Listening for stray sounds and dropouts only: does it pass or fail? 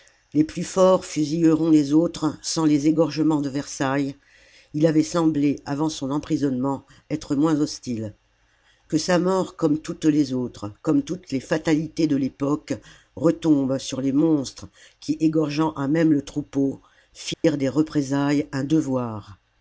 fail